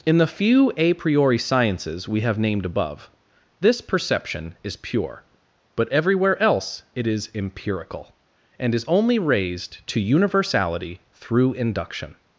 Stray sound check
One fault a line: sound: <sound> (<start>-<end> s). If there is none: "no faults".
no faults